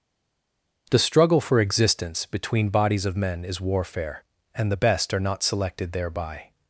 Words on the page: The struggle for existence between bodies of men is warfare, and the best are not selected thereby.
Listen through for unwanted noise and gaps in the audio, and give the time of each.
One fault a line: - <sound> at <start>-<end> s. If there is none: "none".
none